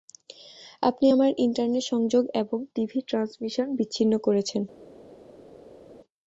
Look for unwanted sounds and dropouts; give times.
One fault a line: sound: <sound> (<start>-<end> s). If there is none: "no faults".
no faults